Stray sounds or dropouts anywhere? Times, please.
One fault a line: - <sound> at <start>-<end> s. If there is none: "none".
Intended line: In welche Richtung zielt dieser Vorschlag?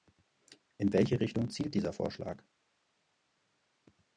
none